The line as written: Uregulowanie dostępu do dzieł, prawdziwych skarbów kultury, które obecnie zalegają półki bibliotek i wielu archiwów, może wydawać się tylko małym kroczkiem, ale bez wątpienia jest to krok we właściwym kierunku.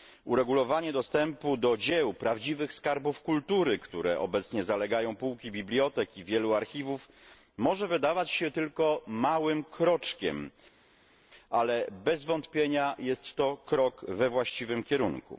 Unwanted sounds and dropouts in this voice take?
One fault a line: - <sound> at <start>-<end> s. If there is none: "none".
none